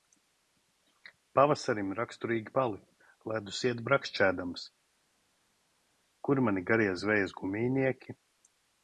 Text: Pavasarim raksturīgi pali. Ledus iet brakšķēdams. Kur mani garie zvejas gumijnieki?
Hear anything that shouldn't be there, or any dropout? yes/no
no